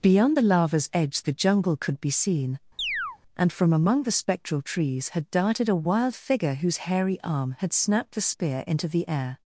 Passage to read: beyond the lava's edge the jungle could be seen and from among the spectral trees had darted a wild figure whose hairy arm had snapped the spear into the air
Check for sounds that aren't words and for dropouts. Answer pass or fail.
fail